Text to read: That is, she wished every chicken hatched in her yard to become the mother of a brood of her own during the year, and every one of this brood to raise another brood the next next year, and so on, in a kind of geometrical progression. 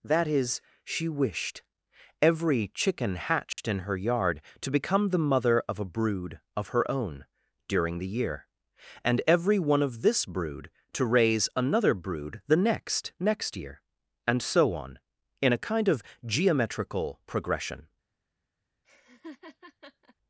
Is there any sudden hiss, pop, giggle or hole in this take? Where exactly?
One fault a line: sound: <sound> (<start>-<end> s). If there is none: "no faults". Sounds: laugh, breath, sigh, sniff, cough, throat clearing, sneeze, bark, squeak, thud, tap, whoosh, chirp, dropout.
sound: dropout (3.5-3.6 s)
sound: laugh (18.8-20.2 s)